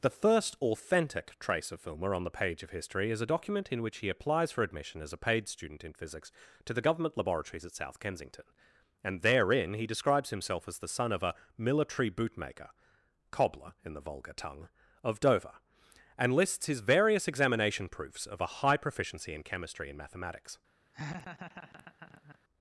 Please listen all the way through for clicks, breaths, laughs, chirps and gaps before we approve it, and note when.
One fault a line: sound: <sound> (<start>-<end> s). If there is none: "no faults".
sound: laugh (20.9-22.4 s)